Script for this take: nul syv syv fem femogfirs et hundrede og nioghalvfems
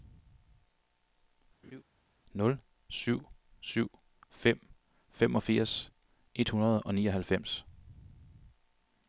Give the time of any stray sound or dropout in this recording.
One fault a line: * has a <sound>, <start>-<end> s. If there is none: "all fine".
* has a laugh, 1.6-1.8 s